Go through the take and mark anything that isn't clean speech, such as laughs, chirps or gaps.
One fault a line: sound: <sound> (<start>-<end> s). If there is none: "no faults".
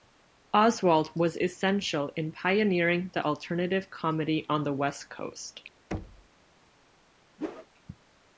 sound: thud (5.9-6.3 s)
sound: whoosh (7.4-7.7 s)